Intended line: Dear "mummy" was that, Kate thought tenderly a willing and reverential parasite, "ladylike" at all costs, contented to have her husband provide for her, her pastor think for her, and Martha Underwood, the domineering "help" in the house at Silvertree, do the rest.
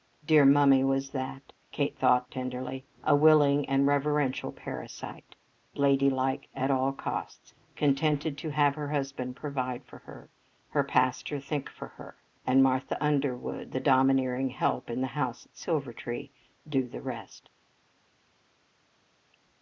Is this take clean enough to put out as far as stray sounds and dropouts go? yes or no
yes